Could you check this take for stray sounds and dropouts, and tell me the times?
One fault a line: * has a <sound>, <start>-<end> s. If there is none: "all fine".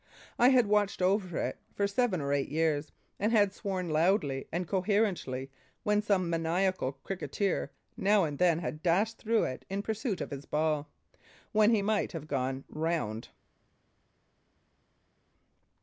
all fine